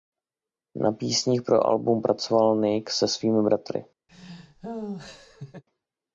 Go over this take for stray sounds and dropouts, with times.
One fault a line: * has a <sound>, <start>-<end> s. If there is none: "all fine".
* has a laugh, 4.1-5.6 s